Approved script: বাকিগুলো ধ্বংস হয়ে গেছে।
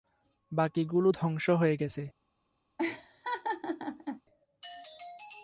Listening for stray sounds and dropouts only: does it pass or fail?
fail